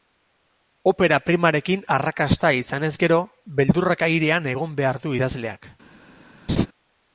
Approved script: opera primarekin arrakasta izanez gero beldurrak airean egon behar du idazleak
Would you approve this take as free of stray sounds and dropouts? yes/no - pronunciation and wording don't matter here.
no